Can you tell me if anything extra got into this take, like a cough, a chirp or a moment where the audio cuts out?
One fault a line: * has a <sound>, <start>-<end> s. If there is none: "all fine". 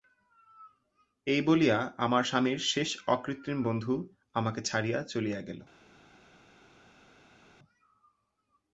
all fine